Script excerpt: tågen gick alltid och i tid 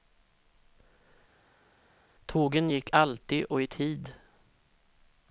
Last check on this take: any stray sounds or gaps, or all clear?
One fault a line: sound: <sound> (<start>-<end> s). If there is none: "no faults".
no faults